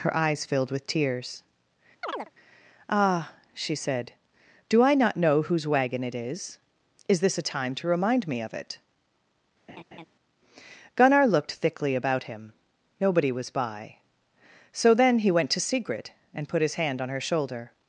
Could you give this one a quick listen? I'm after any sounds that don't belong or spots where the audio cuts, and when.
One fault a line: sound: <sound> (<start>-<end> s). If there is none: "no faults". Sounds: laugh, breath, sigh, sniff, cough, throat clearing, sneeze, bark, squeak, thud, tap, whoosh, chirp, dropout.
sound: chirp (2.0-2.3 s)
sound: laugh (9.7-10.1 s)